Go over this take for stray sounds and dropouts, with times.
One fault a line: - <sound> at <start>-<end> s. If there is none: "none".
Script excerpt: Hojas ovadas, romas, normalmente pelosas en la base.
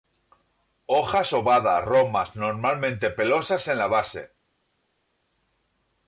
none